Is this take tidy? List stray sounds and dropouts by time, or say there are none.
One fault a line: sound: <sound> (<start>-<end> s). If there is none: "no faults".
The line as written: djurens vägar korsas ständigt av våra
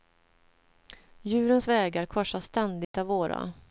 sound: dropout (2.8-2.9 s)